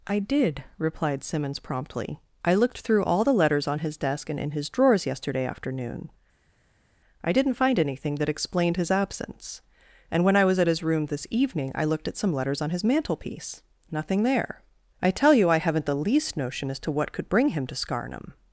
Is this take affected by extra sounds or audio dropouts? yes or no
no